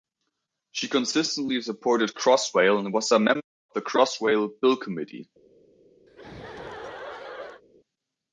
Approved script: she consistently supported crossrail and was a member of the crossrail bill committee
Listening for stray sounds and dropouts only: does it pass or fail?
fail